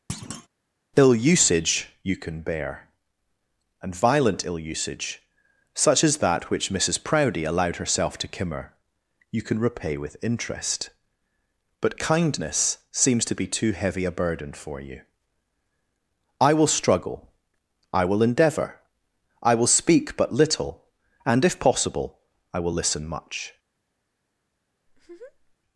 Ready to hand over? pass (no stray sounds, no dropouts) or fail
fail